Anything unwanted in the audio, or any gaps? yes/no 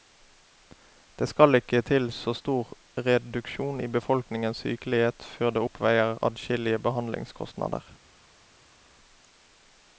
no